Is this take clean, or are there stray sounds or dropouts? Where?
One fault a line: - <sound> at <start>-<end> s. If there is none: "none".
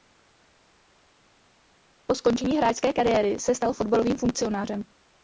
none